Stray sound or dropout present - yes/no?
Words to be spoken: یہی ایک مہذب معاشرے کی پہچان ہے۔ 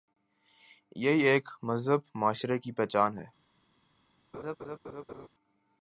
yes